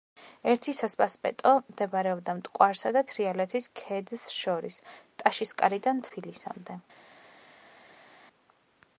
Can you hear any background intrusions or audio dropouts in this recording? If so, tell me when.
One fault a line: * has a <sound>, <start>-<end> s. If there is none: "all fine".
all fine